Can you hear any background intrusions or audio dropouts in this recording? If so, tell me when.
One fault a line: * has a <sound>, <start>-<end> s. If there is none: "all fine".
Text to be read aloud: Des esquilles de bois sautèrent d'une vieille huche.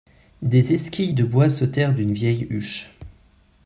all fine